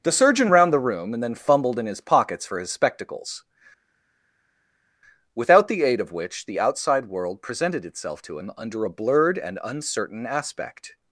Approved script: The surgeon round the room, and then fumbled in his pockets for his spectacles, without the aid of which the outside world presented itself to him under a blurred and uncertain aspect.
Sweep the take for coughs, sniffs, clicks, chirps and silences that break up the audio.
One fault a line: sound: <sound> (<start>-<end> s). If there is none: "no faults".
no faults